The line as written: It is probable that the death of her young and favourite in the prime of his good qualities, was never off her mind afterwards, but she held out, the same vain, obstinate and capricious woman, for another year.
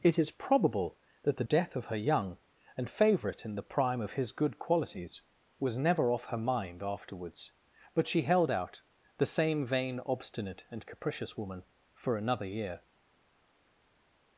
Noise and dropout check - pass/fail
pass